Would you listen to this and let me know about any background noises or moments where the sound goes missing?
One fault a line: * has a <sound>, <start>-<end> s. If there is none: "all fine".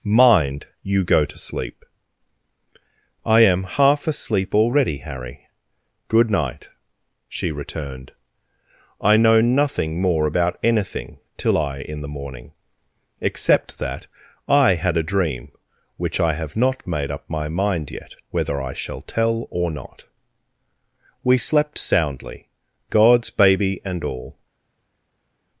all fine